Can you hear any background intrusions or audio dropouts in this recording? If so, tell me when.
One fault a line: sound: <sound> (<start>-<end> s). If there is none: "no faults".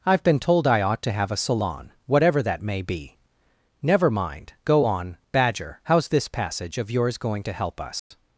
sound: dropout (8.0-8.1 s)